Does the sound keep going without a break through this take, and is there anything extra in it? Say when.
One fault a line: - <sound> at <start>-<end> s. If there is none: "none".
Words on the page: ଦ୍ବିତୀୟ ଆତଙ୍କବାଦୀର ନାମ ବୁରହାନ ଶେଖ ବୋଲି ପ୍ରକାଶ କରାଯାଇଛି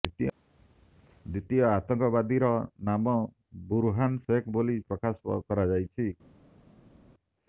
none